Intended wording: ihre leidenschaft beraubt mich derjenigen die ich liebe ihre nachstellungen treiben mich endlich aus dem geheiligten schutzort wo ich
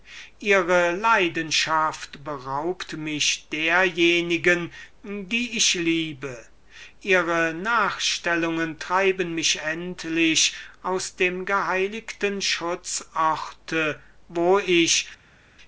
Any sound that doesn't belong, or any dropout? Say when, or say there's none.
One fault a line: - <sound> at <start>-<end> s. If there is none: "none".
none